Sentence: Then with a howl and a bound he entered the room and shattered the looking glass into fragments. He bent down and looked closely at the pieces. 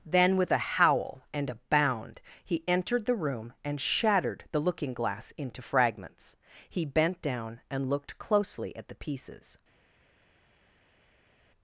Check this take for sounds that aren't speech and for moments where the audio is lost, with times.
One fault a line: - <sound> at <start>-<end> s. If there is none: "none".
none